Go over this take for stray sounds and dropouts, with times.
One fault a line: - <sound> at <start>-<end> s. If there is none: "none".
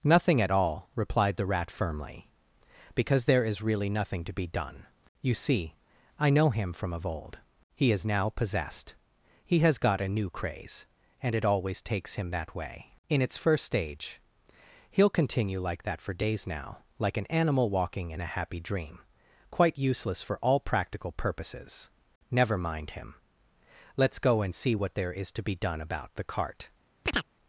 - chirp at 27.0-27.3 s